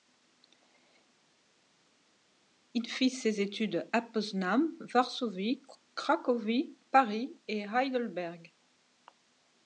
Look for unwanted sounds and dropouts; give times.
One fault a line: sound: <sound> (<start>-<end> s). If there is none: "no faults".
no faults